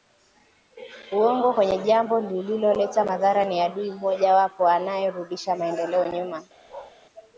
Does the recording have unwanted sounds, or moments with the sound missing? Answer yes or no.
yes